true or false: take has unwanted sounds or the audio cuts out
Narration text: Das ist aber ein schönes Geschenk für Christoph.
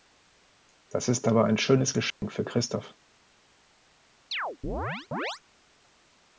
true